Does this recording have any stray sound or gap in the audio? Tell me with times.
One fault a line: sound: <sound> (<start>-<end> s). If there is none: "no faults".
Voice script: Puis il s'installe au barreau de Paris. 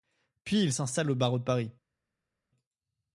no faults